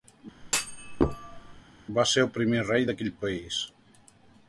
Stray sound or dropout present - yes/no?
yes